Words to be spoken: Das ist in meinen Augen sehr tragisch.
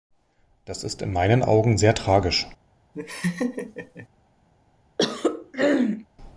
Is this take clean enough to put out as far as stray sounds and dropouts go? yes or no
no